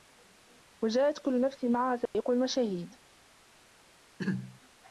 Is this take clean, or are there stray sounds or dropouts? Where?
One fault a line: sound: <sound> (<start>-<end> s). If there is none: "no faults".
sound: dropout (2.1-2.1 s)
sound: throat clearing (4.2-4.6 s)